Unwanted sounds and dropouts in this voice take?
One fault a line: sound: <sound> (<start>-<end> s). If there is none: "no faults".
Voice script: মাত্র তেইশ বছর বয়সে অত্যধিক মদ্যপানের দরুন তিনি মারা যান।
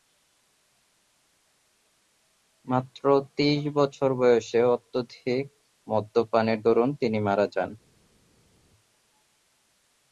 no faults